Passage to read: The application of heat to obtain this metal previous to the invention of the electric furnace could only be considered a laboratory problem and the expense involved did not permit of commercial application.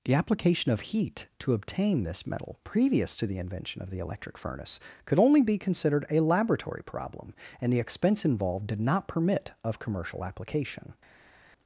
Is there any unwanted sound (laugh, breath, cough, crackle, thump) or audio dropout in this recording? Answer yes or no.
no